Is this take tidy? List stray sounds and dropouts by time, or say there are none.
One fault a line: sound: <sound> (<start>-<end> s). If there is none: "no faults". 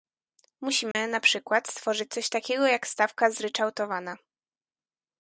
sound: dropout (0.9-1.0 s)